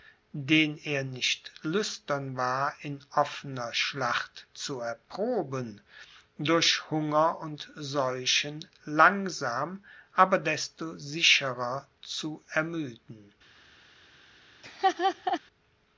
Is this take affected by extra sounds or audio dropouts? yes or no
yes